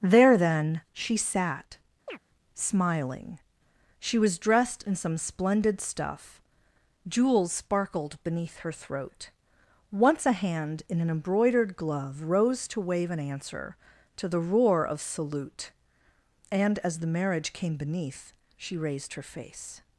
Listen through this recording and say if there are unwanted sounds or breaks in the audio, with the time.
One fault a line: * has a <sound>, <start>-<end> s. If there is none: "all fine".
* has a chirp, 2.1-2.2 s